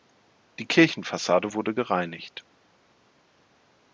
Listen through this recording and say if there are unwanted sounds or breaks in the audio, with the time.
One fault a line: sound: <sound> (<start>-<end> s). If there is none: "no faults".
no faults